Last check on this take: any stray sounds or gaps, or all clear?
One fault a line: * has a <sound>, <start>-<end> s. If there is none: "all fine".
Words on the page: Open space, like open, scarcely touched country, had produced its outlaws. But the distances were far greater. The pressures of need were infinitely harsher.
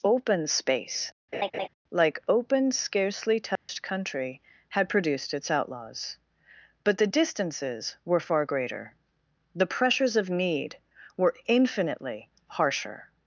* has a laugh, 1.3-1.7 s
* has a dropout, 3.6-3.7 s